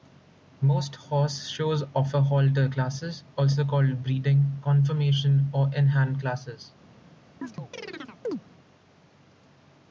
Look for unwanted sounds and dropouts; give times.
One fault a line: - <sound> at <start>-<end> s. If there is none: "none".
- chirp at 7.4-8.4 s